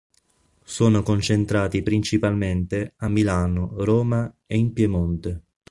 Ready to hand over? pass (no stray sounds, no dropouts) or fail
pass